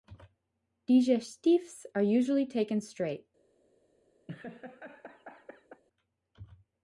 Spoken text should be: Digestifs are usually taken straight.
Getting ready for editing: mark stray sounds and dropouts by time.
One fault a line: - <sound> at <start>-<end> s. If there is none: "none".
- laugh at 4.3-5.8 s